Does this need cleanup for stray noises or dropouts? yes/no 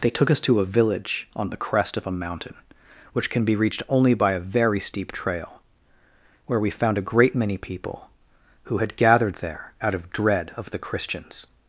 no